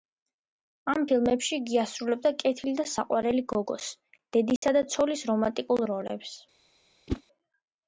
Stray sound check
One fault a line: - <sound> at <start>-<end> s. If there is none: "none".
- dropout at 4.6-4.6 s
- whoosh at 7.1-7.2 s